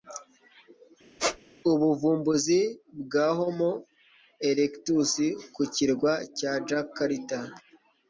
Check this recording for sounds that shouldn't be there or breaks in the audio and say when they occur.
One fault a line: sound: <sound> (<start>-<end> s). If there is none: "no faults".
sound: squeak (1.2-1.4 s)